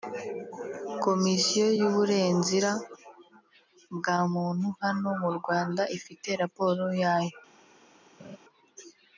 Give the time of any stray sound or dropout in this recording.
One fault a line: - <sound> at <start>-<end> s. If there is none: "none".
- laugh at 8.2-8.4 s